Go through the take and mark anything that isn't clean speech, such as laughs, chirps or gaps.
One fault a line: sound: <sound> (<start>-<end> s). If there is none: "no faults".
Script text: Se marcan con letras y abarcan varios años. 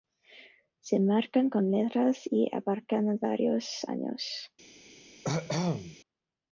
sound: cough (5.2-6.0 s)